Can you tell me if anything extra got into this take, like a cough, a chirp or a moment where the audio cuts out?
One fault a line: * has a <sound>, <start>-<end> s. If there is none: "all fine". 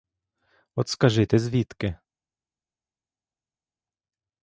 all fine